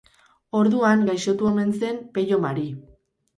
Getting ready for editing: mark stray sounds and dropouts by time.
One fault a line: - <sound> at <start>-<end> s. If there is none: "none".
none